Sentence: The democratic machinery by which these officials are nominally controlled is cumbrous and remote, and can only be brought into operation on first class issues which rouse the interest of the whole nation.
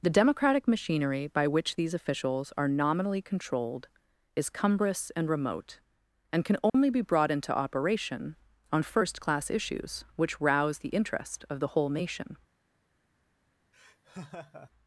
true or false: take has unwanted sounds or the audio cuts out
true